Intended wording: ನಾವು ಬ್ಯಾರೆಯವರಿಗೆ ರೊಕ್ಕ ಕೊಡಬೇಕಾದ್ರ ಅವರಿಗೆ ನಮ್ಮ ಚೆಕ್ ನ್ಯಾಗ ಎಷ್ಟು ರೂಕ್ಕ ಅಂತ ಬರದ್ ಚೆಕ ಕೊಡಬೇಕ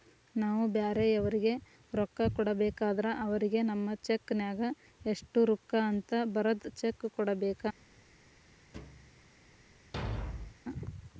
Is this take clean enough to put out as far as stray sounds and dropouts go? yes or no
no